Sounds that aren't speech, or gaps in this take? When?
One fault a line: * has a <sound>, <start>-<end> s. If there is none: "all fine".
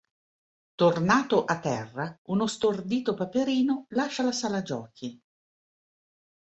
all fine